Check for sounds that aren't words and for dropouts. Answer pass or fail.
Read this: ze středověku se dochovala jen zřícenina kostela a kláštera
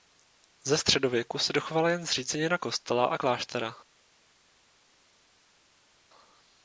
pass